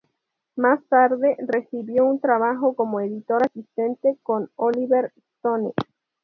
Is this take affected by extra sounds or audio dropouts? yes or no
no